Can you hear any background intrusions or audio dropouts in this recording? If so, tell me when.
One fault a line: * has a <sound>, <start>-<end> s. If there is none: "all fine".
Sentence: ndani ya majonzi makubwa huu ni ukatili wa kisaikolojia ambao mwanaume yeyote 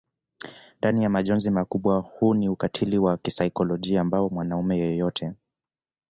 all fine